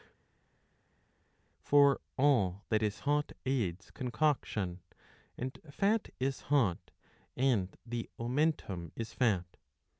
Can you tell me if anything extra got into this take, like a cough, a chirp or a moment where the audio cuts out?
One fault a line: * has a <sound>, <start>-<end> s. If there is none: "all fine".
all fine